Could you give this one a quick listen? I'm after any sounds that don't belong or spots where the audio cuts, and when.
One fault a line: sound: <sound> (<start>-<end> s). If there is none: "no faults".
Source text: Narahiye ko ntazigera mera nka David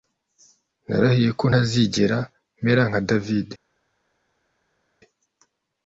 no faults